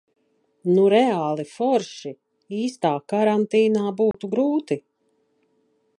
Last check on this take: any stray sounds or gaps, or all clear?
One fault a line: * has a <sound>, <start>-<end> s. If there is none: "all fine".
* has a dropout, 4.1-4.1 s